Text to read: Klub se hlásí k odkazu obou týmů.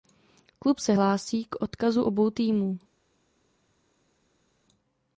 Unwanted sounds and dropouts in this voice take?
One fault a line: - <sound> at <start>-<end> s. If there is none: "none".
none